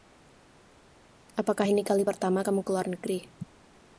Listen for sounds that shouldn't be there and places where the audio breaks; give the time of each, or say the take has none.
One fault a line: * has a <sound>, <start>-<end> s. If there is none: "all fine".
all fine